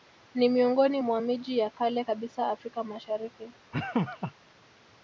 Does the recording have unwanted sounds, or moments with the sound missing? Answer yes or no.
yes